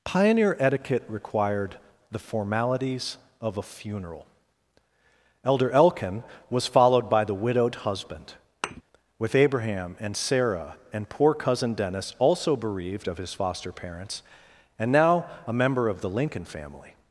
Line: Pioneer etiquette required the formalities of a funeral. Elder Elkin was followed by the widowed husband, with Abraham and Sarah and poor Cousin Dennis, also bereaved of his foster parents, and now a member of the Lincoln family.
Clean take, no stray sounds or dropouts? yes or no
no